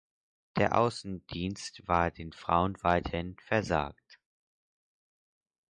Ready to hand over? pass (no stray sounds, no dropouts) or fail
pass